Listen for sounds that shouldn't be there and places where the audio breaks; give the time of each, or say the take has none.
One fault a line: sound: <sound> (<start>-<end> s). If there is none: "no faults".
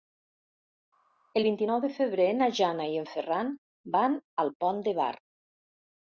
no faults